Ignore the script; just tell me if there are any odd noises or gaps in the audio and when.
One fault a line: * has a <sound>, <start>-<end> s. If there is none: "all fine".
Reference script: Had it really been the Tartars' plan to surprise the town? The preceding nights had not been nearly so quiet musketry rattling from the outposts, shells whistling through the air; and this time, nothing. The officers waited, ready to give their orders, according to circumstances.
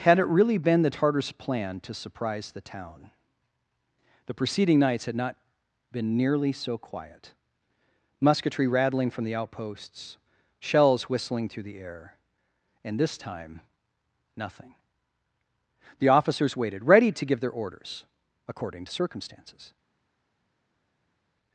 all fine